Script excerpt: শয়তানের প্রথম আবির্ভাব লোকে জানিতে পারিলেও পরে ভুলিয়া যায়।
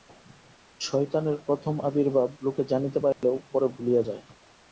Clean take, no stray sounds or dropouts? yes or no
no